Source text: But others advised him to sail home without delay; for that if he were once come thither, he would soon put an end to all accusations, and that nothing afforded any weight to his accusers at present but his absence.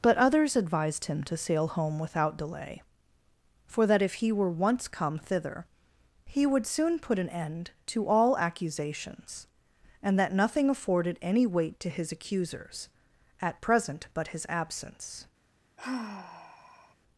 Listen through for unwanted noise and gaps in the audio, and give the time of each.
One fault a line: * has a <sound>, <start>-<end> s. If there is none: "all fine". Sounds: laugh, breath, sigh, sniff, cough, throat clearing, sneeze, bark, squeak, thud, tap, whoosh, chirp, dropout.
* has a sigh, 15.8-16.9 s